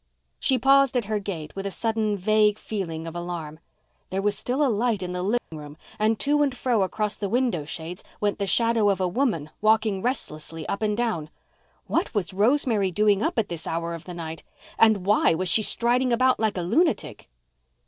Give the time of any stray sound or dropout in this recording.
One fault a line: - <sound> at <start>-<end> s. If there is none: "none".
- dropout at 5.4-5.5 s